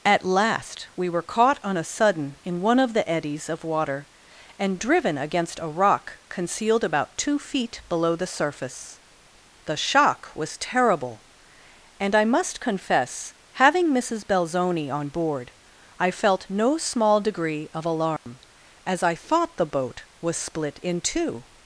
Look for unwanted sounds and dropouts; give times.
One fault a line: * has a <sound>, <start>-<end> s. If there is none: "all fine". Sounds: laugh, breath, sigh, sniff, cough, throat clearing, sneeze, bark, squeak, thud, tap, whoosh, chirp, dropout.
* has a dropout, 18.2-18.3 s